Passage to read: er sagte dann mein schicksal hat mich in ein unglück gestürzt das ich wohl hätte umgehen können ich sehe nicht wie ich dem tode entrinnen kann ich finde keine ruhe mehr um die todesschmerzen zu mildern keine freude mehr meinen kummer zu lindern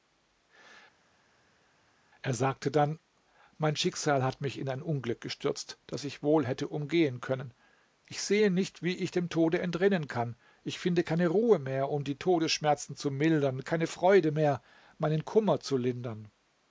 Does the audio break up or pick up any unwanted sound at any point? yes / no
no